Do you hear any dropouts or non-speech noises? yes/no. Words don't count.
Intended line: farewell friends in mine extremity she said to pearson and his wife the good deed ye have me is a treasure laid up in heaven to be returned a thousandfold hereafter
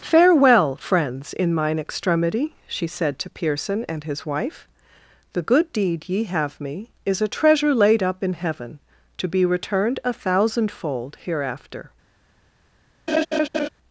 yes